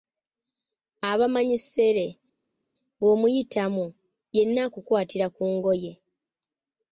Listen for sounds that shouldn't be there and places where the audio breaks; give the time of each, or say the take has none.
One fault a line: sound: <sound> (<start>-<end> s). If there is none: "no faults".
no faults